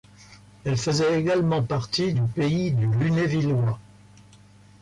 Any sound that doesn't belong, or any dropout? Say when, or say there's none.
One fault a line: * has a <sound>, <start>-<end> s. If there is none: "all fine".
all fine